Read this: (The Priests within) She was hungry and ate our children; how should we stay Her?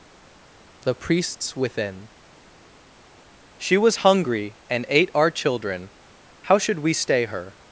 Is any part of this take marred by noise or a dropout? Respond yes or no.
no